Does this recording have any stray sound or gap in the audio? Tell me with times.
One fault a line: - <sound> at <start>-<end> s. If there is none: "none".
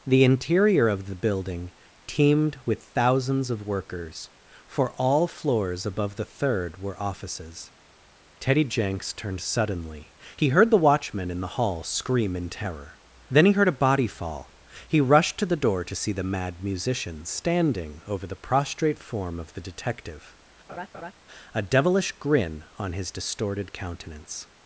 - laugh at 20.7-21.1 s